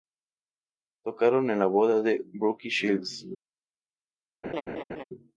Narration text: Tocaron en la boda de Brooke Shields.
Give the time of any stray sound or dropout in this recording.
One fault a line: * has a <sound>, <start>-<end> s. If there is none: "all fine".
* has a laugh, 4.4-5.0 s